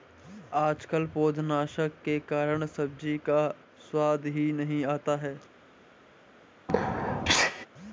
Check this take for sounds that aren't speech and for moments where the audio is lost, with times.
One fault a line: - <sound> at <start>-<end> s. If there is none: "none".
- sneeze at 6.7-7.7 s